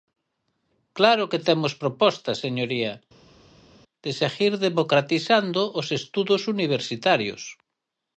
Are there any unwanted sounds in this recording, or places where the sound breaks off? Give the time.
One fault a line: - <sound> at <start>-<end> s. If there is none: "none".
none